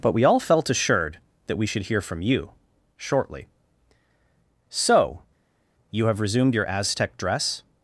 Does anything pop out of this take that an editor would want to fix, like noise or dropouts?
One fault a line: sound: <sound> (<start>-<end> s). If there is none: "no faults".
no faults